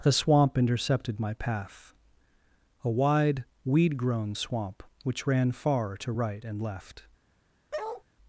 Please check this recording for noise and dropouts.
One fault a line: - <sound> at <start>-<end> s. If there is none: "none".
- bark at 7.7-8.0 s